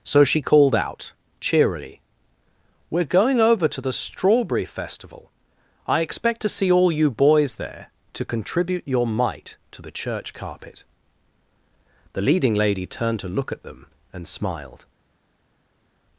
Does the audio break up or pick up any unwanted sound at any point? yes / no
no